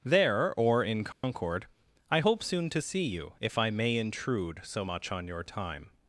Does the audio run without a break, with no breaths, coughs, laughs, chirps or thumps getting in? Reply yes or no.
no